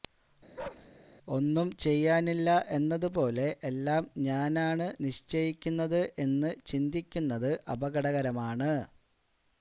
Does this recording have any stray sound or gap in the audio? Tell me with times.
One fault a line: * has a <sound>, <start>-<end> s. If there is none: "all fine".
* has a bark, 0.6-0.9 s